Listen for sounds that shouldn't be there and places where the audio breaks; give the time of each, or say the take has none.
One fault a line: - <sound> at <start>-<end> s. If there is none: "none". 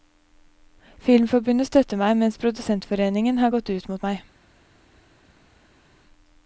none